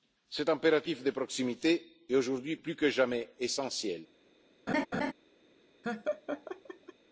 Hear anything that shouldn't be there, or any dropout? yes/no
yes